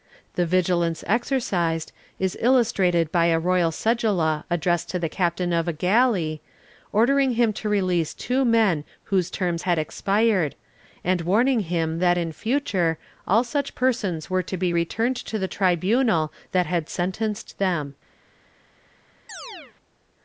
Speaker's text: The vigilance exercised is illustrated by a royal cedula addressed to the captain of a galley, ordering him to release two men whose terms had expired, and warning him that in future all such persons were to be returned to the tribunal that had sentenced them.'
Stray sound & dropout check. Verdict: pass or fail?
fail